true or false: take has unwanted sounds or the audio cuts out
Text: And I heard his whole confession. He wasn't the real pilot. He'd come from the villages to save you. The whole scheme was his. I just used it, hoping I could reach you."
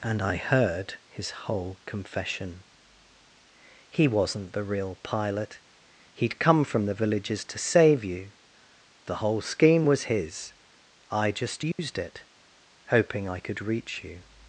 true